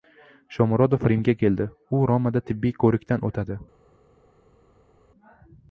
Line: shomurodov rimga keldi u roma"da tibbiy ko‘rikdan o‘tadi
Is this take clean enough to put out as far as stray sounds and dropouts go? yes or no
yes